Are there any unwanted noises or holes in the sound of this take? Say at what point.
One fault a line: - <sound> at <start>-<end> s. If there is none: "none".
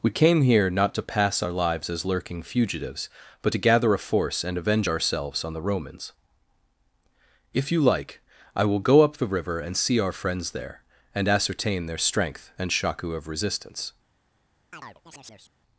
- chirp at 14.7-15.5 s